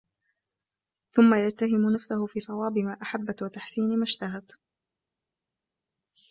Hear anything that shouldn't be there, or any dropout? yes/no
no